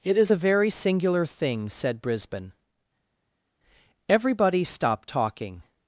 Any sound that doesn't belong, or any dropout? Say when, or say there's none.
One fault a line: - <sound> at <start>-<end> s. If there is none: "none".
none